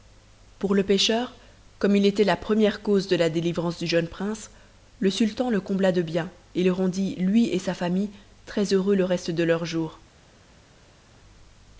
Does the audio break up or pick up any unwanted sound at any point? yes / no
no